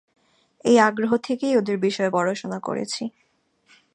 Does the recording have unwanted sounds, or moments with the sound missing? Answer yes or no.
no